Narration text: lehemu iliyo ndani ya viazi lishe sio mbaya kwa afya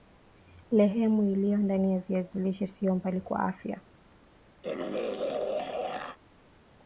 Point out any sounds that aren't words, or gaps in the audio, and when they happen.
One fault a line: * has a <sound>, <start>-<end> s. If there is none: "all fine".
* has a throat clearing, 4.6-6.2 s